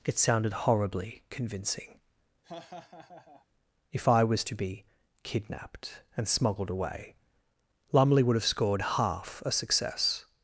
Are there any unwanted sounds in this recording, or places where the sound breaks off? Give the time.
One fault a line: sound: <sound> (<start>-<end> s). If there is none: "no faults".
sound: laugh (2.4-3.5 s)